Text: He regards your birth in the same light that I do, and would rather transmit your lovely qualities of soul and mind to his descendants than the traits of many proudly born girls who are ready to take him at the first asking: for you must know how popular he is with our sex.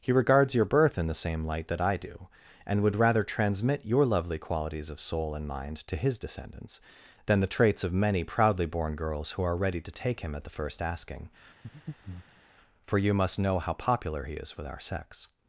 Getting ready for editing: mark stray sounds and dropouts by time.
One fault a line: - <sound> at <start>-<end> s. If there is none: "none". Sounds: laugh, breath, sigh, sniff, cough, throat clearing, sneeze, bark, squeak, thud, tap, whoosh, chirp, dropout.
- breath at 11.6-12.4 s